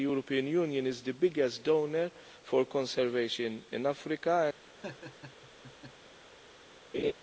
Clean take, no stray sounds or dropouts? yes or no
no